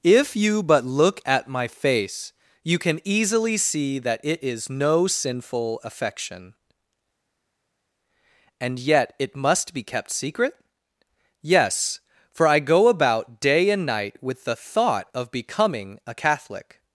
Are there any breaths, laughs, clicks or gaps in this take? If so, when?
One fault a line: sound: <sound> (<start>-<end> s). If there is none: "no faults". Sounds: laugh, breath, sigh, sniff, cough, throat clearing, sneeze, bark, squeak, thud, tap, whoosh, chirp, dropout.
no faults